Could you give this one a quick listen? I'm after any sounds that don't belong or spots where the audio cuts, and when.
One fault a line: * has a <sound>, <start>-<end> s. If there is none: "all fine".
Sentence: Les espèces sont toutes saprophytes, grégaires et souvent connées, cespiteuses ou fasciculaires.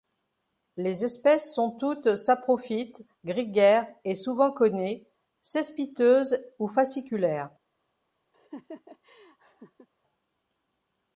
* has a laugh, 8.3-9.9 s